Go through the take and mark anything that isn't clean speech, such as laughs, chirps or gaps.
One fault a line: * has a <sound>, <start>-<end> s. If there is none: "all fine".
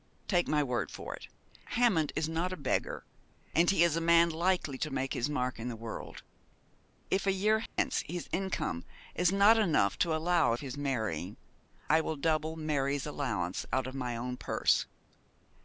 * has a dropout, 7.7-7.8 s